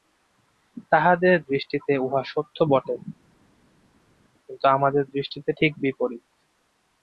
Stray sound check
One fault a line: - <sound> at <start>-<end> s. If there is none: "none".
none